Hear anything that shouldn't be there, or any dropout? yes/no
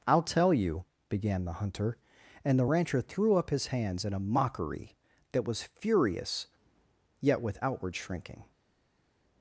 no